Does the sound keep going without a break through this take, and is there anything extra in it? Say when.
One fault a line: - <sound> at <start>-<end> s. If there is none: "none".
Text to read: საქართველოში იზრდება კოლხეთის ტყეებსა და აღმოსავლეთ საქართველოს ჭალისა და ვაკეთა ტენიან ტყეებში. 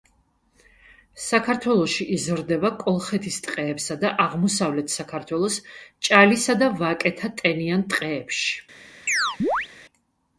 - chirp at 9.1-9.7 s